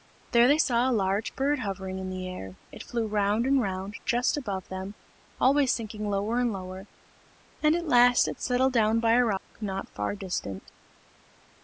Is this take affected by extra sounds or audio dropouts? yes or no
yes